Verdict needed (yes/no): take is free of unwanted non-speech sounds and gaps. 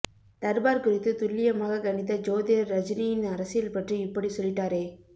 yes